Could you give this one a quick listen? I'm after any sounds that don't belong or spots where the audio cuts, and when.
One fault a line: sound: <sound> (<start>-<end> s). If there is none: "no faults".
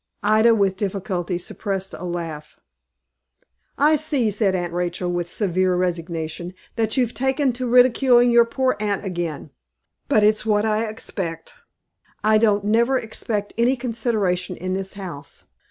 no faults